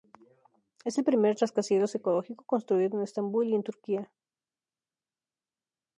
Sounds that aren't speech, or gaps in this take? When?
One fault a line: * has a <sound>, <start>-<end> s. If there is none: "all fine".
all fine